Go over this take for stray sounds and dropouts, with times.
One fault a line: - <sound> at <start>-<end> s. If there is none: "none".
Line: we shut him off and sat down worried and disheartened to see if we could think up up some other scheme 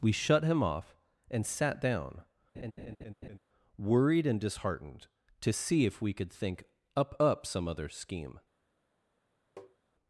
- laugh at 2.5-3.4 s
- tap at 9.6-9.8 s